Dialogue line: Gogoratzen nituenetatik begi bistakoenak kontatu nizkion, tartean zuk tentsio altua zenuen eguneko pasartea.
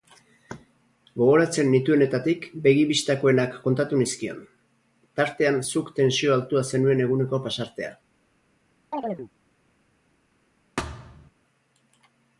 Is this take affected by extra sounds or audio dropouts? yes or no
yes